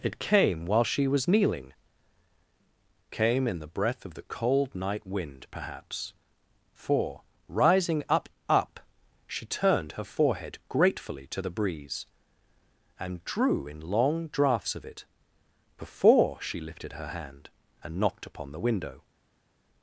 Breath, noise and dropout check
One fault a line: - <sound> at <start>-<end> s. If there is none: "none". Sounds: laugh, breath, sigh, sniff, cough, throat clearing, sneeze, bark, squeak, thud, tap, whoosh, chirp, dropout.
none